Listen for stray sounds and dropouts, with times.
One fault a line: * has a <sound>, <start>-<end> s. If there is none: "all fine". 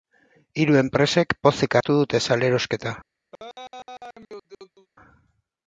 * has a laugh, 3.3-4.9 s